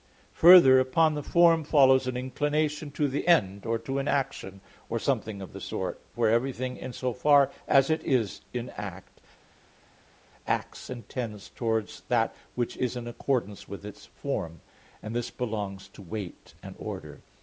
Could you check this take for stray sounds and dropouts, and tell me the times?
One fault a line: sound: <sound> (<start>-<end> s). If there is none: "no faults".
no faults